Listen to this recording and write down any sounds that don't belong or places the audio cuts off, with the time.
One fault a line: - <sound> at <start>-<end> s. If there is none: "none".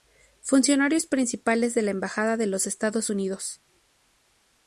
none